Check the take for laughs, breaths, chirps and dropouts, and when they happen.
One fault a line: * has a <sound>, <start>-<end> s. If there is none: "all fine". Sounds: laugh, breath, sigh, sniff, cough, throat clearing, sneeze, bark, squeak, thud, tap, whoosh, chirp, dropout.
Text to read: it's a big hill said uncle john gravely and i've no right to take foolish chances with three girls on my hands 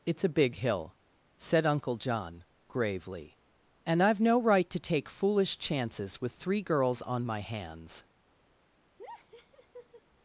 * has a laugh, 9.0-10.0 s